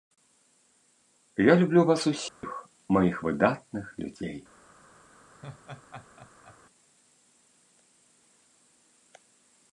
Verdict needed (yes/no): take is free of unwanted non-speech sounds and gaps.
no